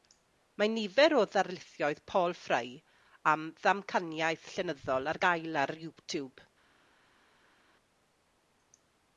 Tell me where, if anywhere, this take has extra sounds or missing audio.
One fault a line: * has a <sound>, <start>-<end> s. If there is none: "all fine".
all fine